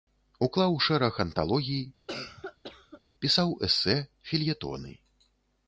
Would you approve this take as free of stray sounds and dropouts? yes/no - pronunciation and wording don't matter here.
no